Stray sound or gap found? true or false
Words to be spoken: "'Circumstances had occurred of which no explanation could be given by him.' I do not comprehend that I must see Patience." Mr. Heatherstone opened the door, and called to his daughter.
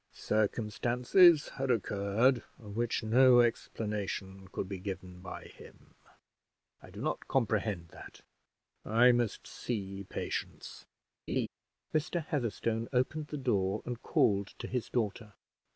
true